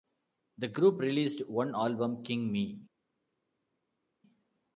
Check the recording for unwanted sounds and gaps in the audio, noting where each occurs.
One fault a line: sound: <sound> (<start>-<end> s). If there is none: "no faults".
no faults